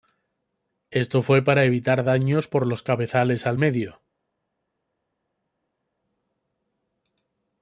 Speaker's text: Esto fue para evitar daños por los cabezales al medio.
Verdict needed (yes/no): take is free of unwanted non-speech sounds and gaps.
yes